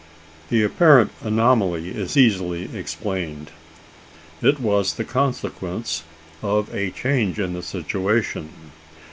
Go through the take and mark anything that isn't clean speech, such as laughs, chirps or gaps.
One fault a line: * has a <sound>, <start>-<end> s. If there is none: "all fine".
all fine